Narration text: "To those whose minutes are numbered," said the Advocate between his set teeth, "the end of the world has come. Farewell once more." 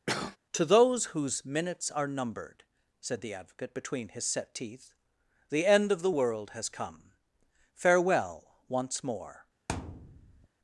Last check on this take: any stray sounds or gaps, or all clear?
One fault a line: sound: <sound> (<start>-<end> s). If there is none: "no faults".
sound: cough (0.1-0.4 s)
sound: thud (9.7-10.5 s)